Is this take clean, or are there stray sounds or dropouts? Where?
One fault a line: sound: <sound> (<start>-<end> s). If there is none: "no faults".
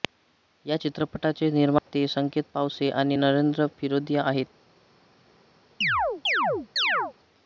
sound: dropout (1.8-1.9 s)
sound: chirp (5.8-7.1 s)